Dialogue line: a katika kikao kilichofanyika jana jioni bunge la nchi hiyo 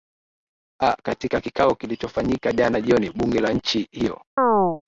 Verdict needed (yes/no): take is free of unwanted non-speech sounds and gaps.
no